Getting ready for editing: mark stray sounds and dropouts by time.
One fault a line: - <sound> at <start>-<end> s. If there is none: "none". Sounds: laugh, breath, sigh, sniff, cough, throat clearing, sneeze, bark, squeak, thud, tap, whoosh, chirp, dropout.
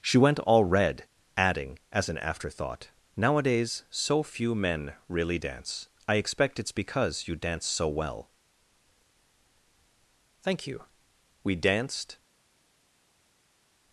none